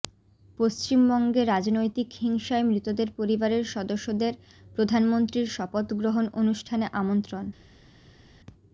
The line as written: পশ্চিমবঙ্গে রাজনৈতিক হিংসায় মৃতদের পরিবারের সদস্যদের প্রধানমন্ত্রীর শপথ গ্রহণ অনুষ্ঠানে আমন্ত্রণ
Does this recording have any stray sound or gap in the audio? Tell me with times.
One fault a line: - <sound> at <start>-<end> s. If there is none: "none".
none